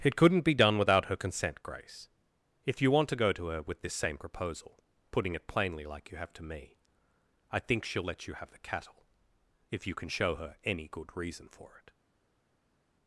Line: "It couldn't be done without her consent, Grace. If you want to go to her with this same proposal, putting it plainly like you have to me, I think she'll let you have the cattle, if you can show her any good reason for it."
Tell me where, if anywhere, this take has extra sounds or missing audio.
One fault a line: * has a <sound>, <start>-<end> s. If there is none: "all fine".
all fine